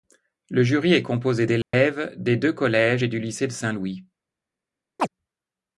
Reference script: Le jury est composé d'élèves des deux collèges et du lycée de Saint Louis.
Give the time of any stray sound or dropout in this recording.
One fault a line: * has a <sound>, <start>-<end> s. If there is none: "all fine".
* has a dropout, 1.6-1.7 s
* has a chirp, 5.0-5.1 s